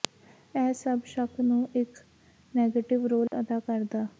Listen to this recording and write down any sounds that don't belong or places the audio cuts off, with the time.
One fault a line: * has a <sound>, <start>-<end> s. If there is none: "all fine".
* has a dropout, 3.3-3.3 s